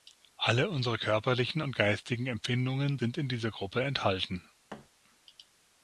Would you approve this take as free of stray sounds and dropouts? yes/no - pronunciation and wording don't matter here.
no